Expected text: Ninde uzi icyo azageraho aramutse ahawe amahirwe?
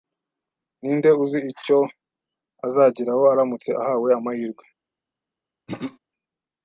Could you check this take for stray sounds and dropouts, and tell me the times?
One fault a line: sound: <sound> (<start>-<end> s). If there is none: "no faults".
sound: throat clearing (5.7-6.0 s)